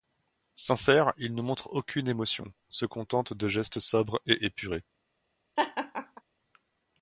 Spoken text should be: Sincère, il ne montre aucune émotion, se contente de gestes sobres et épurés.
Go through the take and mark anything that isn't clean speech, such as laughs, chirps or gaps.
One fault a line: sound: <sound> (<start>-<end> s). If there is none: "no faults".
sound: laugh (5.6-6.2 s)